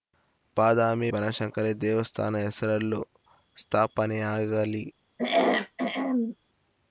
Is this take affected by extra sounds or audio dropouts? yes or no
yes